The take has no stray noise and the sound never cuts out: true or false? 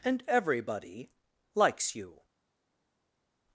true